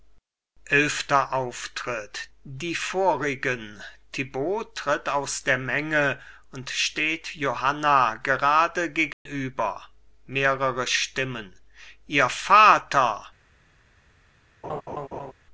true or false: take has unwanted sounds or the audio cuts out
true